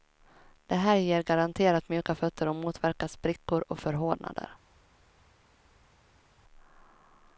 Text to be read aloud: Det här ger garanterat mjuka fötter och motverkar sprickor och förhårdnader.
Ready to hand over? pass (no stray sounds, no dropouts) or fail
pass